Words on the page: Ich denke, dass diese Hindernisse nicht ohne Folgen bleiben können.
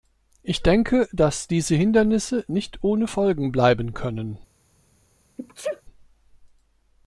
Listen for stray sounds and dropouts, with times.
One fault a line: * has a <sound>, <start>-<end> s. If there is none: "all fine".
* has a sneeze, 5.4-5.8 s